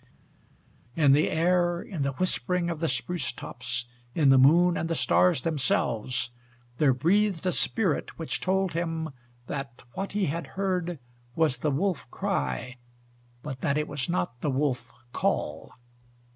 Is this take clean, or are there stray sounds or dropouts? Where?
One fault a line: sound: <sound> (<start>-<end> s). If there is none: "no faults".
no faults